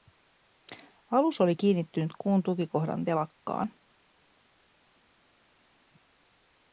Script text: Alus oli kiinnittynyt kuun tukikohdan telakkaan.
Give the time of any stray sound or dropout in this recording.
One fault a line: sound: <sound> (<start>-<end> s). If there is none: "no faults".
no faults